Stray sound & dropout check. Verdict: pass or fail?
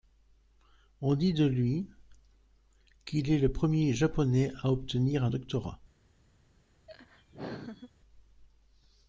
fail